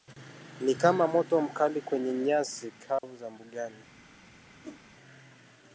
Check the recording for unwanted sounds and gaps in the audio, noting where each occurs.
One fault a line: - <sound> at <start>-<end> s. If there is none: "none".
- dropout at 3.0-3.0 s
- whoosh at 4.6-4.8 s